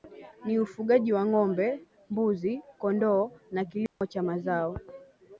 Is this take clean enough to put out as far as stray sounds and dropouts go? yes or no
no